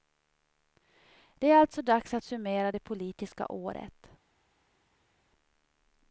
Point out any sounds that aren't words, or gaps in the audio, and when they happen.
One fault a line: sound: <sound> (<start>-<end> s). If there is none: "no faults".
no faults